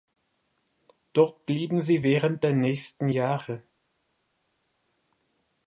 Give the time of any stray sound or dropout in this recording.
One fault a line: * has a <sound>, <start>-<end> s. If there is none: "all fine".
all fine